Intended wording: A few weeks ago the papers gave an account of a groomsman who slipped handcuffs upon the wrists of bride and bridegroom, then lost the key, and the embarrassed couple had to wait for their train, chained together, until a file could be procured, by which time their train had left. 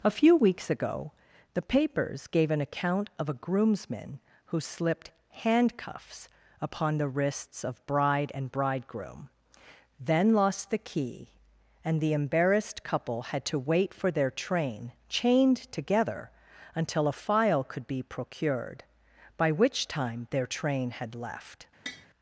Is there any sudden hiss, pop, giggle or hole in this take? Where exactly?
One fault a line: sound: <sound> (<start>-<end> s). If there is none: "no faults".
sound: tap (21.9-22.1 s)